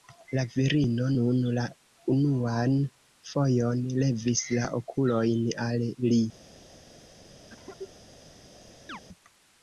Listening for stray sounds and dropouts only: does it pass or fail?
fail